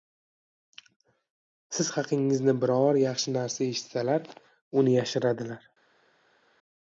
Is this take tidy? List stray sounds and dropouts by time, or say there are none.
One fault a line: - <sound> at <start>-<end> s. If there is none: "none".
none